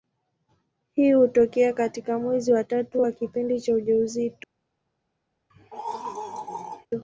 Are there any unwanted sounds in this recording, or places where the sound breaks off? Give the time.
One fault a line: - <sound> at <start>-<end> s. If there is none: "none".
- throat clearing at 5.5-6.9 s